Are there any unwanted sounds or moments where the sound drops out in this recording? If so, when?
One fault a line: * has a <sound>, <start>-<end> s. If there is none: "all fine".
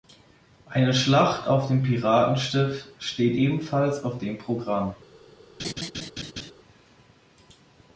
* has a laugh, 5.6-6.5 s